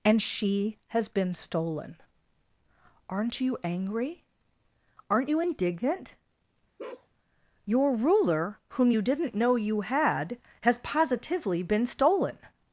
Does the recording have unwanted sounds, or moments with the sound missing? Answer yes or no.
yes